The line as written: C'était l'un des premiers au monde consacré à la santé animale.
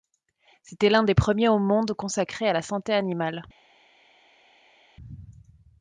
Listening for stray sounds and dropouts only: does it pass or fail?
pass